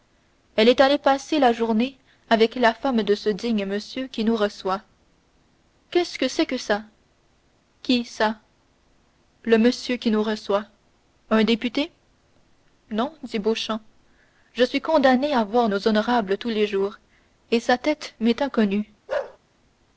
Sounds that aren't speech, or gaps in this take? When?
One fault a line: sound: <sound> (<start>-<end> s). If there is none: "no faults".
sound: bark (19.1-19.4 s)